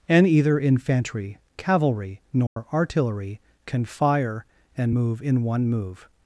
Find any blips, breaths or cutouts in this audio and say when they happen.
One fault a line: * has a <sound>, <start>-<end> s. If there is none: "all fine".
* has a dropout, 2.5-2.6 s